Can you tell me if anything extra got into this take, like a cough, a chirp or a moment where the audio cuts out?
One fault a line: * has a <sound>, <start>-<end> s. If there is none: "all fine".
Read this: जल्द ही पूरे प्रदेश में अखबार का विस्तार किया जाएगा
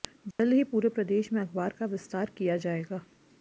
* has a dropout, 0.3-0.4 s